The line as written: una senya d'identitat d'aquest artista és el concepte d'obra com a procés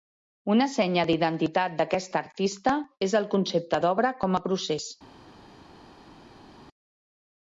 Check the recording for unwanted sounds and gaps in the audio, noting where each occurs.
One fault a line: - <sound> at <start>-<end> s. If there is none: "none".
none